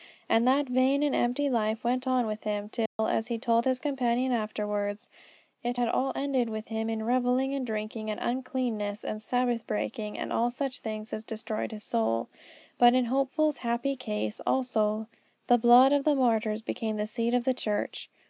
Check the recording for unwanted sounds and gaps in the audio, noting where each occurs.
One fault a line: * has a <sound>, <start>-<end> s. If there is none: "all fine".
* has a dropout, 2.9-3.0 s